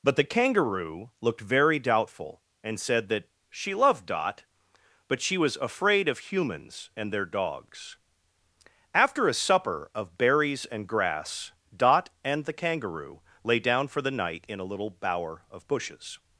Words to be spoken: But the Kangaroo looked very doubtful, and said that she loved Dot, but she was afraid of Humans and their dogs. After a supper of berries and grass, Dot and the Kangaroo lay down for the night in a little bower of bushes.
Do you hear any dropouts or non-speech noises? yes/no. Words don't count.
no